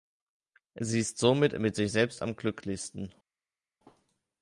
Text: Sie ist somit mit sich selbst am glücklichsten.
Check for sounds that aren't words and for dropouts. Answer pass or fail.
pass